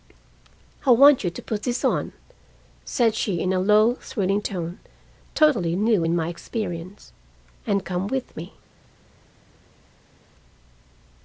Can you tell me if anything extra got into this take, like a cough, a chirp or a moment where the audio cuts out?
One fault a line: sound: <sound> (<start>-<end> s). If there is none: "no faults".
no faults